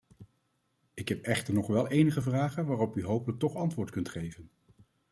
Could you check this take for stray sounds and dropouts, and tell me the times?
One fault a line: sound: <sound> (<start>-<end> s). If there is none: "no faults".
no faults